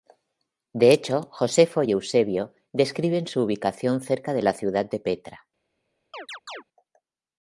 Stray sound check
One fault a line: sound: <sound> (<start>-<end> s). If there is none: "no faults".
sound: chirp (6.1-6.6 s)